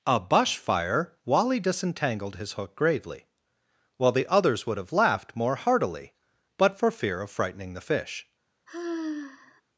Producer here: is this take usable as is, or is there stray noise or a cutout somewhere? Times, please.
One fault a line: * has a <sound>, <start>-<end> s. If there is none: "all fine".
* has a sigh, 8.7-9.6 s